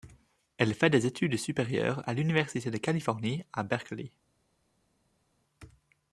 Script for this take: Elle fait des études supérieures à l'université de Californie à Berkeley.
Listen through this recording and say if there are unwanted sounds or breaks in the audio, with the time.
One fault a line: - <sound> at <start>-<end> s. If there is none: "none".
none